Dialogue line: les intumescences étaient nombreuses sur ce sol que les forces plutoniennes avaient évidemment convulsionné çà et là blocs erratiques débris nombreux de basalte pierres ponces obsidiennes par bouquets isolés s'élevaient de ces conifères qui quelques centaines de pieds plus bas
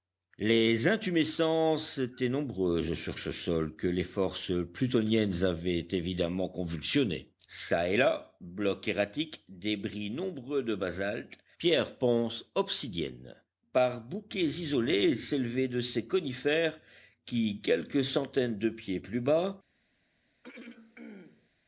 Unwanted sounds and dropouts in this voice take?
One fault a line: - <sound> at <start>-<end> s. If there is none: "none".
- throat clearing at 20.4-21.5 s